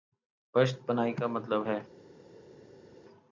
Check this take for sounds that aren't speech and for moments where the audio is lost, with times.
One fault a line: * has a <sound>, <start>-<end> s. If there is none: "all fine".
all fine